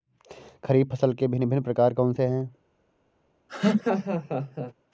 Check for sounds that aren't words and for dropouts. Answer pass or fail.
fail